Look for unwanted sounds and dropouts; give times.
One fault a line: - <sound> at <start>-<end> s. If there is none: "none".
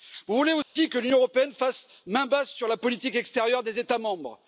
- dropout at 0.6-0.8 s